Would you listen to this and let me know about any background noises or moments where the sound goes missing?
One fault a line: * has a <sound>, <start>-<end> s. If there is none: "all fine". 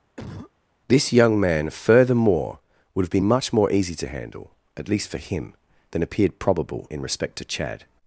* has a cough, 0.2-0.5 s